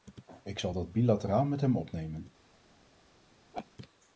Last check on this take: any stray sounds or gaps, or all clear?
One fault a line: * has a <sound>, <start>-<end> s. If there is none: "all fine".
* has a laugh, 3.5-3.7 s